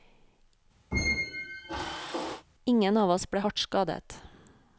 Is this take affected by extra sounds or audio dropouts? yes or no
yes